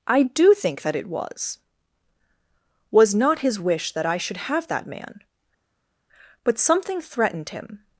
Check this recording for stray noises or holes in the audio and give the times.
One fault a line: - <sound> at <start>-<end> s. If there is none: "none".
none